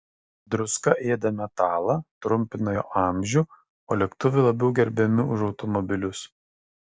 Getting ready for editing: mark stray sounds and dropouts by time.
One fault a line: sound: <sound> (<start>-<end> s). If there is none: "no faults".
no faults